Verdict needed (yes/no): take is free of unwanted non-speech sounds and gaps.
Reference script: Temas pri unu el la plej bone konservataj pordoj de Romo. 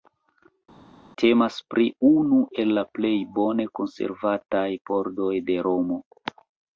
yes